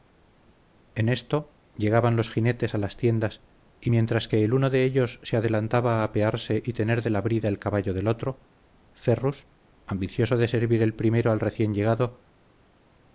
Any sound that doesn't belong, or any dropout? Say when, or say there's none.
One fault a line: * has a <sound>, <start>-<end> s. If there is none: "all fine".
all fine